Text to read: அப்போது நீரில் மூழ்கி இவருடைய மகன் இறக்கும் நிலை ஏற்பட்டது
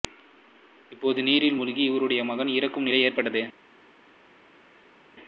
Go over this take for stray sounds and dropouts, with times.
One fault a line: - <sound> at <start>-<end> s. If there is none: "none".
none